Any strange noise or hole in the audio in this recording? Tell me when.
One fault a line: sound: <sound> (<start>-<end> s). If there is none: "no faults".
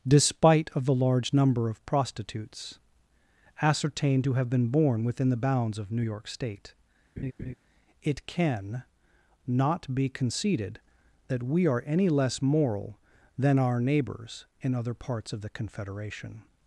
sound: laugh (7.2-7.5 s)